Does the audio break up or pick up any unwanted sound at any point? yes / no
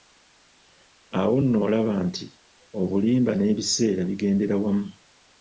no